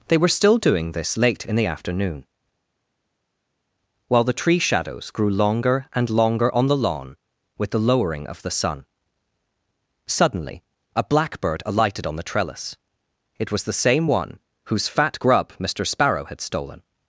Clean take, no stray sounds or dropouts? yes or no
yes